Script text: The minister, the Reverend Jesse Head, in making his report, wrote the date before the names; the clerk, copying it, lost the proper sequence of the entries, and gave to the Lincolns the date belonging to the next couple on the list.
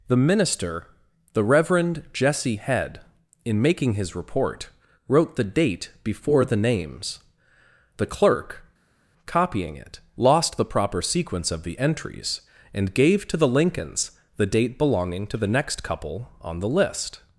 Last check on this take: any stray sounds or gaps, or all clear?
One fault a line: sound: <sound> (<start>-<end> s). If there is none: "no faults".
no faults